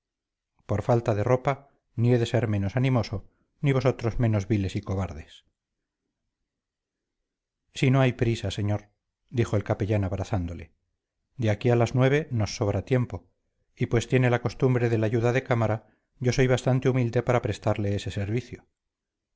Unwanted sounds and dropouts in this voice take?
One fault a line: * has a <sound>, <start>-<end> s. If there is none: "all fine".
all fine